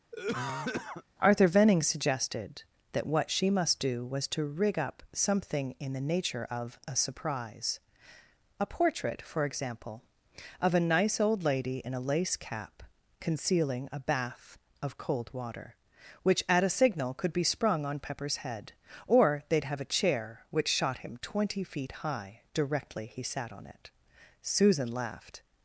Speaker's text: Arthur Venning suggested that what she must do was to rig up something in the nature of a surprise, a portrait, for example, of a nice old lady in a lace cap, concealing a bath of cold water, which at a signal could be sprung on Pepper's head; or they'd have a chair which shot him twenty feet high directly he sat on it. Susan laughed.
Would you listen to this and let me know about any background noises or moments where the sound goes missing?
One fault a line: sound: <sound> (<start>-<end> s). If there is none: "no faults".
sound: cough (0.1-1.0 s)